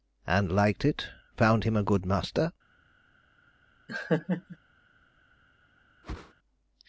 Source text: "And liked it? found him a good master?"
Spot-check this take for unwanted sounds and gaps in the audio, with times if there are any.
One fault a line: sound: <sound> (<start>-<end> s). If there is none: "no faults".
sound: laugh (3.9-4.6 s)
sound: whoosh (6.0-6.3 s)